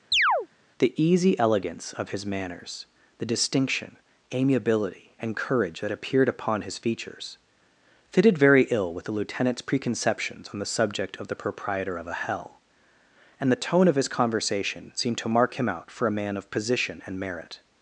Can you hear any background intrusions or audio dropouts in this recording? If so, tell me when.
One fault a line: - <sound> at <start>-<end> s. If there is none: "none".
- chirp at 0.1-0.5 s